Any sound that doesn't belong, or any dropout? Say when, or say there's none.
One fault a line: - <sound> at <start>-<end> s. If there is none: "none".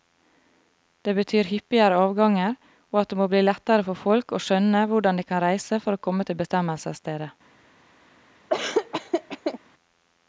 - laugh at 8.5-9.6 s